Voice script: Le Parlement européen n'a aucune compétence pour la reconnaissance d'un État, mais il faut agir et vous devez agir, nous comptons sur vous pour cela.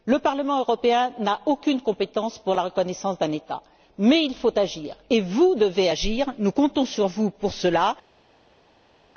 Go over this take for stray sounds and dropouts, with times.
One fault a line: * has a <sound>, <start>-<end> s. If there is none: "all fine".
all fine